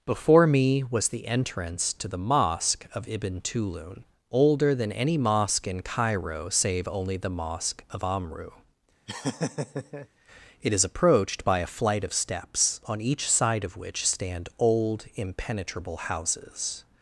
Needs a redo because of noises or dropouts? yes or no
yes